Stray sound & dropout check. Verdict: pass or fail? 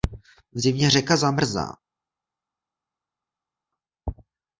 pass